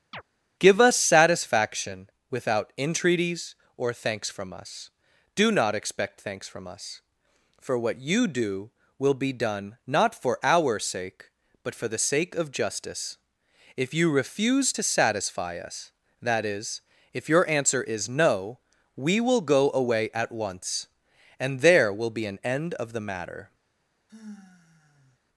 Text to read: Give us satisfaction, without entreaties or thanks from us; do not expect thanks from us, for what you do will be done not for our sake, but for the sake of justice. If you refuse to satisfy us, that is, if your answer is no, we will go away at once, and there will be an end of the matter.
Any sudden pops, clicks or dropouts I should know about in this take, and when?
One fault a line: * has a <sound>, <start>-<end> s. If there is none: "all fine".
* has a chirp, 0.1-0.2 s
* has a sigh, 24.1-25.2 s